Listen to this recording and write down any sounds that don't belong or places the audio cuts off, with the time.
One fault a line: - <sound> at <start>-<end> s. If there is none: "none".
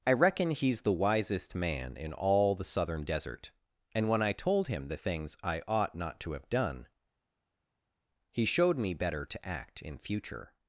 none